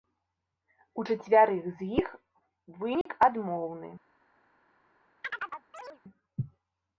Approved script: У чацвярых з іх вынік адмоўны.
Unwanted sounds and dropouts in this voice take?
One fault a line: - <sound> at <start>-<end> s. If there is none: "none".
- dropout at 3.0-3.1 s
- chirp at 5.2-6.0 s